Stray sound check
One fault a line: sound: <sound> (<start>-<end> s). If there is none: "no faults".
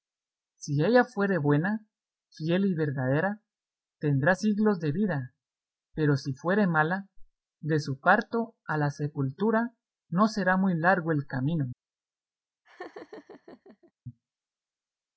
sound: laugh (12.6-13.9 s)